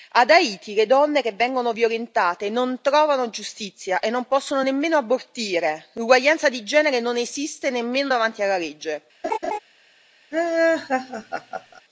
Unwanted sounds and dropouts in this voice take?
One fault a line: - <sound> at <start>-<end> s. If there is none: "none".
- laugh at 9.2-9.6 s
- laugh at 10.3-11.8 s